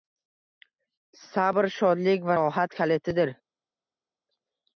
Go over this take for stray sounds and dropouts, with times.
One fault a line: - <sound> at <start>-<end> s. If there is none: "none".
none